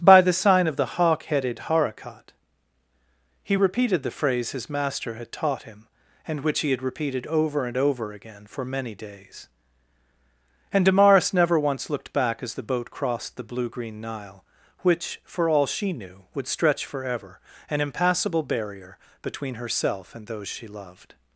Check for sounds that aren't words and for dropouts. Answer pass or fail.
pass